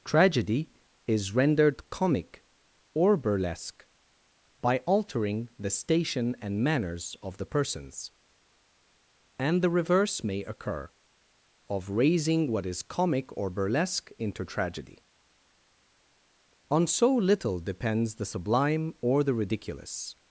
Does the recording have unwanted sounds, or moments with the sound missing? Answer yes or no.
no